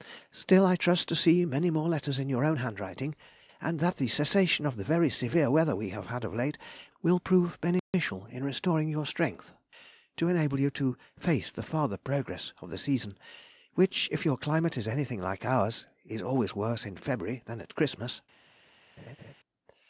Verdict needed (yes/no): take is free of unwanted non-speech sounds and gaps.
no